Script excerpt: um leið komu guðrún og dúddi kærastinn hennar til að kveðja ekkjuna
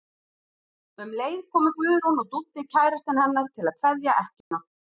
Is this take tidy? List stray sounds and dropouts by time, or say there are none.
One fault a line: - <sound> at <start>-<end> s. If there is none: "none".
- dropout at 4.4-4.5 s